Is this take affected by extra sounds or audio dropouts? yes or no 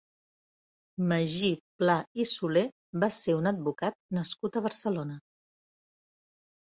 no